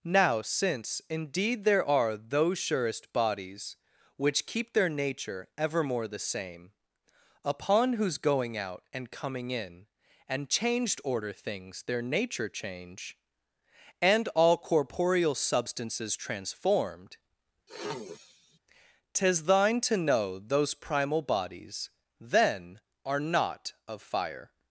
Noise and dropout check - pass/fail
fail